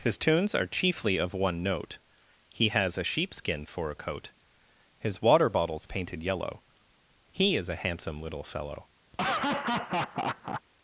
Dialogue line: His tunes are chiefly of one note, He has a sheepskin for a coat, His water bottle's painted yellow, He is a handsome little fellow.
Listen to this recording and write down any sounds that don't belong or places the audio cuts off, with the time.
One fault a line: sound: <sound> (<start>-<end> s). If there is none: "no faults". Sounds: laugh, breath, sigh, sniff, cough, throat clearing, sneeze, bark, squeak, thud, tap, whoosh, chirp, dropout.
sound: laugh (9.1-10.6 s)